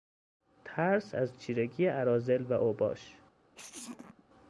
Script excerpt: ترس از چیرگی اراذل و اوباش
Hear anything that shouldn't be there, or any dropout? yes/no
yes